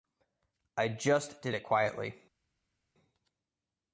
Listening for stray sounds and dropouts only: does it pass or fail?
pass